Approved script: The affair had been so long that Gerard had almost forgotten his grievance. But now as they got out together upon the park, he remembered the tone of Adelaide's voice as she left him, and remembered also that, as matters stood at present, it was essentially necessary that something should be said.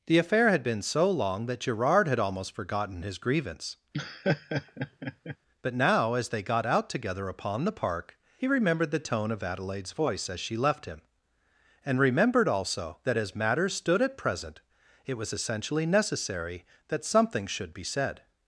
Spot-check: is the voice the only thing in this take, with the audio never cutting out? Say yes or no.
no